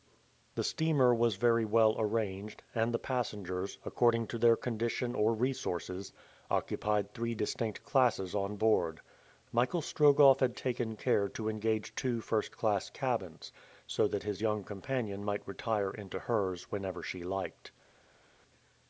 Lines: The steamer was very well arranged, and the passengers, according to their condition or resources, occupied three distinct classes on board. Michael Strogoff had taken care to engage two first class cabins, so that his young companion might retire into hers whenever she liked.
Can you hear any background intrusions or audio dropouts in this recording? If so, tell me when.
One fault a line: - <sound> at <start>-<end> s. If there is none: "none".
none